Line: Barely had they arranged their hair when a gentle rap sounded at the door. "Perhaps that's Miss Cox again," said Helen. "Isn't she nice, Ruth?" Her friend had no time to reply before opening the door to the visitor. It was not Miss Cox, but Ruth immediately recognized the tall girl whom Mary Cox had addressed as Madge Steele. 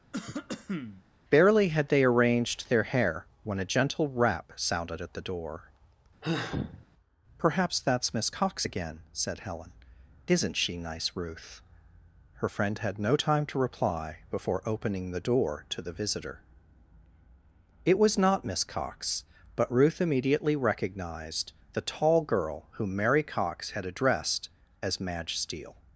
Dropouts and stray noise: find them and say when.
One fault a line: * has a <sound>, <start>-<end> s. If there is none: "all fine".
* has a cough, 0.1-1.0 s
* has a sigh, 6.2-6.9 s